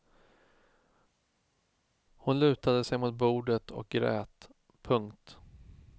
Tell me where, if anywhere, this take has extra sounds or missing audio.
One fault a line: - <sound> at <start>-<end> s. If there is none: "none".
none